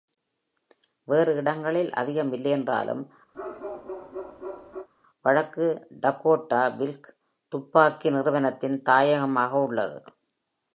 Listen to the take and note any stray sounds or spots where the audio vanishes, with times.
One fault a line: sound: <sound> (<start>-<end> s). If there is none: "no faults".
sound: bark (3.3-4.9 s)